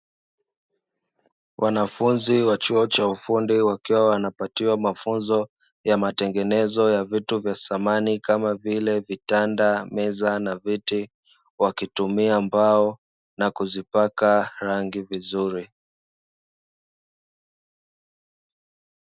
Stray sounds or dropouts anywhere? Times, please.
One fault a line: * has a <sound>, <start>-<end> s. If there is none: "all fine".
all fine